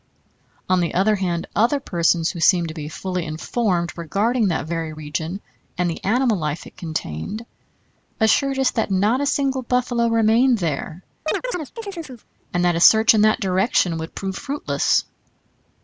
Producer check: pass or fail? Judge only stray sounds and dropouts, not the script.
fail